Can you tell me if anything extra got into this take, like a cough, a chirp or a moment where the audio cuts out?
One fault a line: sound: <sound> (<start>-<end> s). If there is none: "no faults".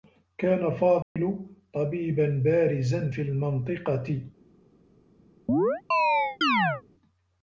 sound: dropout (1.0-1.2 s)
sound: chirp (5.5-6.8 s)